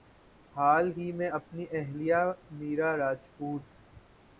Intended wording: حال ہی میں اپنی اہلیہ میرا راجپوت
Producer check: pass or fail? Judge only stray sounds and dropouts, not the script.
pass